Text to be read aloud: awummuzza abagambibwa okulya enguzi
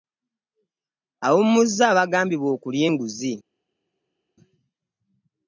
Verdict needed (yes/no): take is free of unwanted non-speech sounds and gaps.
yes